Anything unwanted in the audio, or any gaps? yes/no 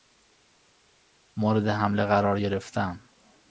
no